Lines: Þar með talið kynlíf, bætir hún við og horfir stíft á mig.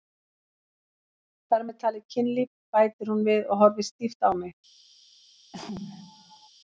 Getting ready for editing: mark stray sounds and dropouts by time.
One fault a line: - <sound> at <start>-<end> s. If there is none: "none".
- sneeze at 5.5-6.5 s